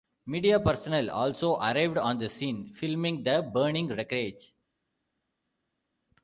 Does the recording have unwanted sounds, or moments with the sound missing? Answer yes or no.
no